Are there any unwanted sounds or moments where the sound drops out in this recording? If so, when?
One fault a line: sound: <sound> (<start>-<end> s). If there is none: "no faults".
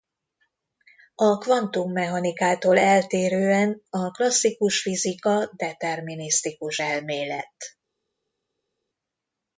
no faults